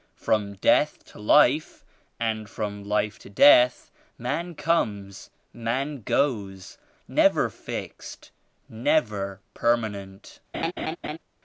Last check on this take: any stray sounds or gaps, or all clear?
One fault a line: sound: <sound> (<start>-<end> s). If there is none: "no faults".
sound: laugh (10.5-11.2 s)